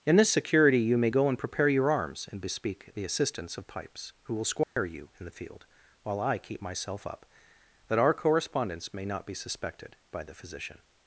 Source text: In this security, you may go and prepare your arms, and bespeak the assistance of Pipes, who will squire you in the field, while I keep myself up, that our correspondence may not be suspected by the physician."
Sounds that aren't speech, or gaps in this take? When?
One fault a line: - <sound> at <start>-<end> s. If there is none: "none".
- dropout at 4.6-4.8 s